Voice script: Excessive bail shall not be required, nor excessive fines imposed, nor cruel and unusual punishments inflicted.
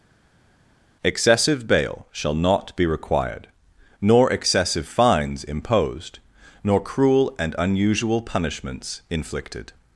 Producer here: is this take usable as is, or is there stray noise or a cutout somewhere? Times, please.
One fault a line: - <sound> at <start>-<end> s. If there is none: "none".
none